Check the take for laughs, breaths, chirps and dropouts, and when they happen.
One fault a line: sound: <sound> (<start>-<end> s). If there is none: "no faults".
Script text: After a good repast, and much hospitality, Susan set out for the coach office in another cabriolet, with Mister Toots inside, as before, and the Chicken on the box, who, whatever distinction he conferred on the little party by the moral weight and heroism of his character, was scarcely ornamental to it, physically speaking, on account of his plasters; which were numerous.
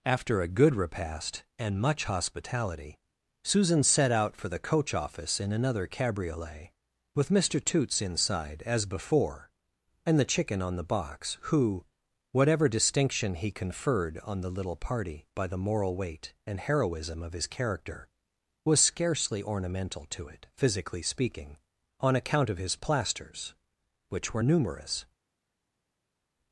no faults